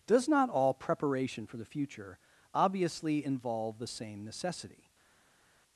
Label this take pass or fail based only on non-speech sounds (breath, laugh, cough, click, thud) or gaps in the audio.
pass